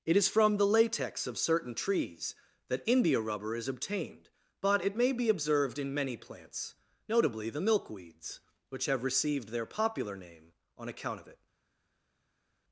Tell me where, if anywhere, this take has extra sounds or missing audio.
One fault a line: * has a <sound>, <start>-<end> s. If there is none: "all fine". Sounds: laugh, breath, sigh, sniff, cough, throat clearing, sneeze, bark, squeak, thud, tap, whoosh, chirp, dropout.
all fine